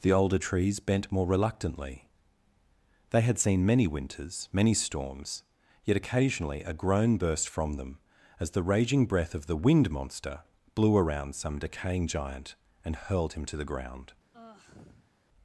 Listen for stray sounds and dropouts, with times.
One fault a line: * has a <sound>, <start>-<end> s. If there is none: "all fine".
* has a sigh, 14.3-15.1 s